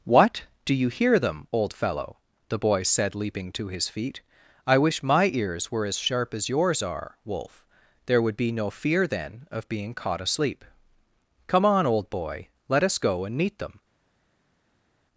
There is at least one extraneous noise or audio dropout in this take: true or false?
false